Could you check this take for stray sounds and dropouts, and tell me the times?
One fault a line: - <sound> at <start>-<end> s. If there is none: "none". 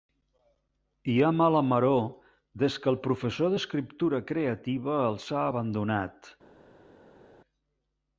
none